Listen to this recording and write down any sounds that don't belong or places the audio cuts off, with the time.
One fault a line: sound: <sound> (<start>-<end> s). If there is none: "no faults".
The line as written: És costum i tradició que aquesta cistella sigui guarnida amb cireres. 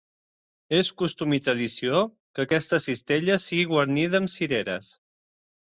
no faults